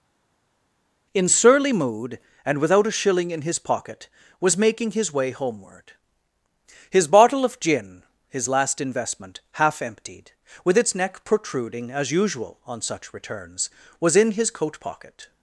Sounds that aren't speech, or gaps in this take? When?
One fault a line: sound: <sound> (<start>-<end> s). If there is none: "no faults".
no faults